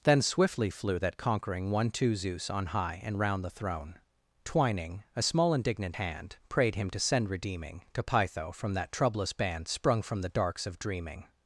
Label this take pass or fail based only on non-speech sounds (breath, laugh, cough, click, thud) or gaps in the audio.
pass